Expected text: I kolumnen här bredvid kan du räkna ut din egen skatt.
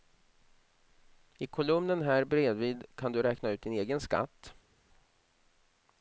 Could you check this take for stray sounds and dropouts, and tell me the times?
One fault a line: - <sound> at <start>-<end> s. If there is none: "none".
none